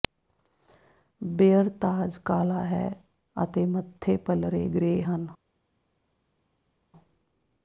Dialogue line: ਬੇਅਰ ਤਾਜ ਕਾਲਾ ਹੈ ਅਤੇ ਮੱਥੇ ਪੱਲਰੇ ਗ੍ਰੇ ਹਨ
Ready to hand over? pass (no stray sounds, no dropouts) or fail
pass